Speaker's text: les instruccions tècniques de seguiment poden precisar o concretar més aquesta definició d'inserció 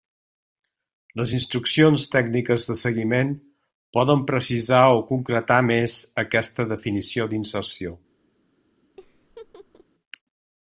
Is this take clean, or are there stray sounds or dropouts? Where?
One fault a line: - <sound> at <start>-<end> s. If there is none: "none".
- laugh at 9.0-9.8 s